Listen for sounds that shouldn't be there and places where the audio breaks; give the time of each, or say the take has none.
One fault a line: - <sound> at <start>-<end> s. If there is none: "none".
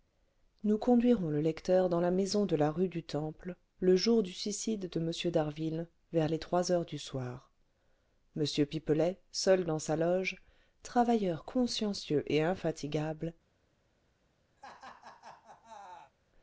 - laugh at 14.6-16.1 s